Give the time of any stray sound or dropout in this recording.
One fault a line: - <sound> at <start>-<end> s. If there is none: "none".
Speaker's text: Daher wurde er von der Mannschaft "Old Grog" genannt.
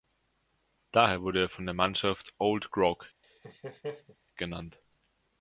- laugh at 3.2-4.2 s